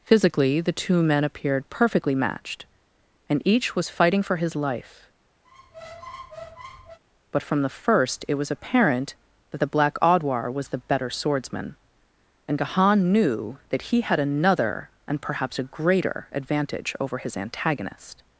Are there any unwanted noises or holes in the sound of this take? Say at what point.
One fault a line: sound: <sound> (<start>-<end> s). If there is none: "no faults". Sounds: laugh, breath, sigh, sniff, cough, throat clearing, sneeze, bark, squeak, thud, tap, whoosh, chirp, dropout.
sound: squeak (5.4-7.0 s)